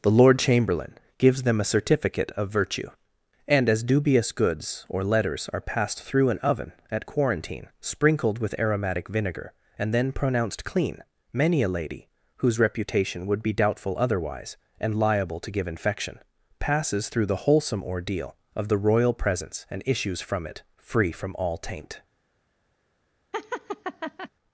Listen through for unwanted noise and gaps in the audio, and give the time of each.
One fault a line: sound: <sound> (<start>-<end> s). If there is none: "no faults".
sound: laugh (23.3-24.3 s)